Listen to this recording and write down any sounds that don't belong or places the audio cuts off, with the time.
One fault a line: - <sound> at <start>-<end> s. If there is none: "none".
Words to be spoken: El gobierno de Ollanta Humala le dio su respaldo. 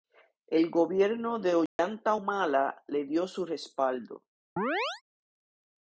- dropout at 1.7-1.8 s
- chirp at 4.6-5.0 s